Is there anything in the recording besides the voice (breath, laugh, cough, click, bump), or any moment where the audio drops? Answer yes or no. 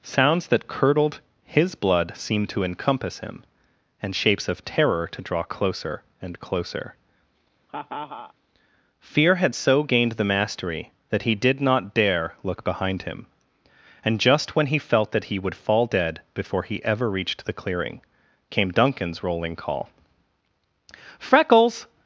yes